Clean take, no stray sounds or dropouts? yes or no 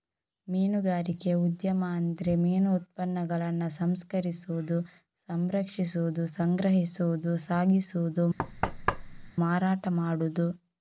no